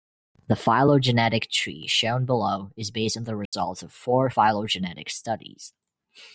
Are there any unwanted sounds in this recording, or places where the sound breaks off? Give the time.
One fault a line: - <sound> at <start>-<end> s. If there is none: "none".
- dropout at 3.5-3.5 s